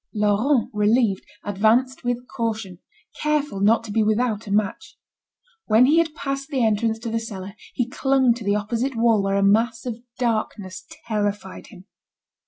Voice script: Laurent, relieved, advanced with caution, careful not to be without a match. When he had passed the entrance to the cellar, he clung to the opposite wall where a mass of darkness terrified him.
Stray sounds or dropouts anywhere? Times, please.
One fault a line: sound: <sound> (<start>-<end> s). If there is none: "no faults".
no faults